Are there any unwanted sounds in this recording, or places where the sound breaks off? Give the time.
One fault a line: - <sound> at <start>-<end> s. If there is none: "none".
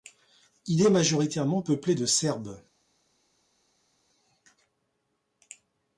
none